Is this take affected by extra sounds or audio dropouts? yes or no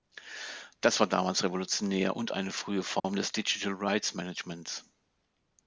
yes